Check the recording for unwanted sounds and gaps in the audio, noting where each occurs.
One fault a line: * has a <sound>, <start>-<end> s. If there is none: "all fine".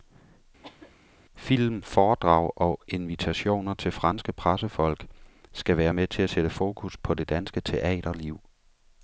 * has a cough, 0.6-0.9 s